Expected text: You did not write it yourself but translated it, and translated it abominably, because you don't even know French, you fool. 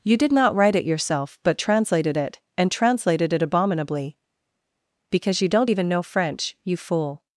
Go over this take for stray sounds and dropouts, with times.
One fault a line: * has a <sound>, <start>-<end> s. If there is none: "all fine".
all fine